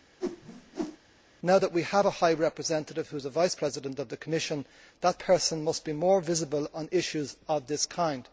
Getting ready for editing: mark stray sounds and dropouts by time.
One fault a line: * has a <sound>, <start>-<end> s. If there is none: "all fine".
* has a whoosh, 0.2-1.0 s